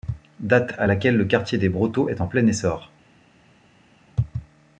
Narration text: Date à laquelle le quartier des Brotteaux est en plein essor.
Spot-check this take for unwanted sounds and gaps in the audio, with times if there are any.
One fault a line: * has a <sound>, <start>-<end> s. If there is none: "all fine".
all fine